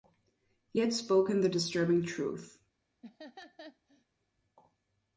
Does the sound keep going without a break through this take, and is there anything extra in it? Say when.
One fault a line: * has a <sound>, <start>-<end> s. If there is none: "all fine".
* has a laugh, 3.0-4.1 s